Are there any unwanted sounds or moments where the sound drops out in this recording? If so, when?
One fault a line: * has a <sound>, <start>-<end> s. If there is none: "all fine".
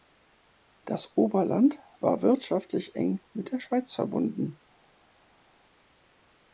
all fine